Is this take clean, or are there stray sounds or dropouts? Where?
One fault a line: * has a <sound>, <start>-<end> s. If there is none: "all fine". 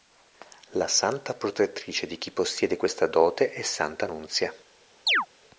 * has a chirp, 5.1-5.3 s